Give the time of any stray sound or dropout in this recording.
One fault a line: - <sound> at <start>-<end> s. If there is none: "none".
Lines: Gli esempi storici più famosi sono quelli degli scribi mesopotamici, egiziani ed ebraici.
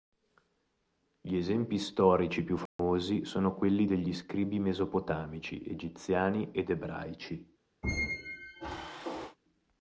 - dropout at 2.7-2.8 s
- squeak at 7.8-9.4 s